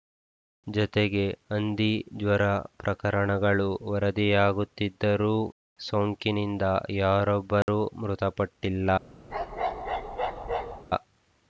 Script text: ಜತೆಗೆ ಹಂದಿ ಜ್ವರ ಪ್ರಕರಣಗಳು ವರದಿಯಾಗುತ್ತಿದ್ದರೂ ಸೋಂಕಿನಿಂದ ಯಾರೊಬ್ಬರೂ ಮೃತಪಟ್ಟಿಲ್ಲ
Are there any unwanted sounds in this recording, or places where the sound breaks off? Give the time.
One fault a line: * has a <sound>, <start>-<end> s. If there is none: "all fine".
* has a dropout, 7.6-7.7 s
* has a bark, 9.3-10.8 s